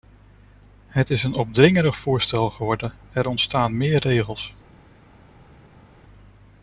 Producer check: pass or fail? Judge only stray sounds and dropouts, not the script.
pass